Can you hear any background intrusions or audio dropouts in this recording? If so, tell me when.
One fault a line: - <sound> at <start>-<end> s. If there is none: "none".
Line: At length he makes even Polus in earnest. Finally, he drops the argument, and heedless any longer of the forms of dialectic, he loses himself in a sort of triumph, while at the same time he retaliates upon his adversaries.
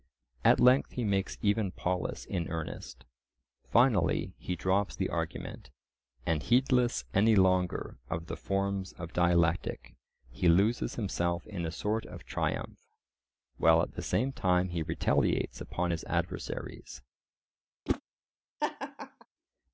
- whoosh at 17.9-18.0 s
- laugh at 18.6-19.3 s